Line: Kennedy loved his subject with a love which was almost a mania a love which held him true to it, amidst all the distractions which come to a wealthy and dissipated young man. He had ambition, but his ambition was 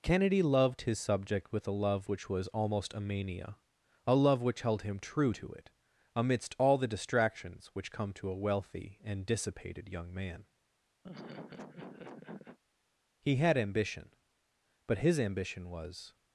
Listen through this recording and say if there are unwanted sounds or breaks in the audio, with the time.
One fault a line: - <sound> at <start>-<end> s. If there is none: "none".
- laugh at 11.0-12.6 s